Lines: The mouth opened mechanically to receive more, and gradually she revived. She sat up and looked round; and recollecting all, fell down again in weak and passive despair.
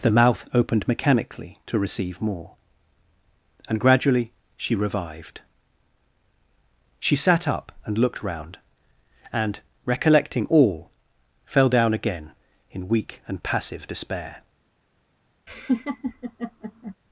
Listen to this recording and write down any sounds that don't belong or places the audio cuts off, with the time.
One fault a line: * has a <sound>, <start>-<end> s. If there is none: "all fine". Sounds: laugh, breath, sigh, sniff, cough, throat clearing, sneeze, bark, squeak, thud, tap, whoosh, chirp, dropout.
* has a laugh, 15.5-16.9 s